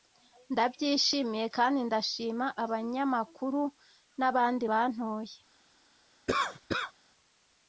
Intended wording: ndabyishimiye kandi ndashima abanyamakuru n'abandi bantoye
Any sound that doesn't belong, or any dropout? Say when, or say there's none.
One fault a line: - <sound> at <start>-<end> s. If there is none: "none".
- cough at 6.3-6.9 s